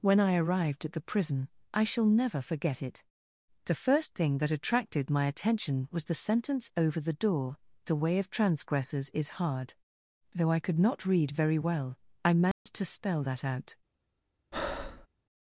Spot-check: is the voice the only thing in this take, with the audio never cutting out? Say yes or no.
no